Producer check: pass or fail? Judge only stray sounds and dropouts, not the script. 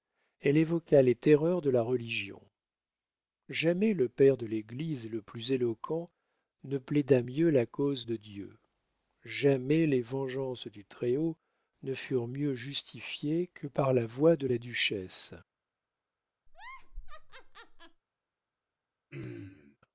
fail